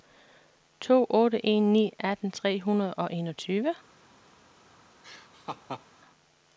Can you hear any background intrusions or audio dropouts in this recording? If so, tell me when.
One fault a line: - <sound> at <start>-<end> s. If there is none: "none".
- laugh at 5.0-5.8 s